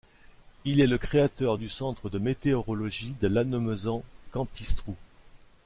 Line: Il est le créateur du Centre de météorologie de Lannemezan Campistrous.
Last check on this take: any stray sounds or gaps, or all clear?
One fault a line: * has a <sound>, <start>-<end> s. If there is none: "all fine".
all fine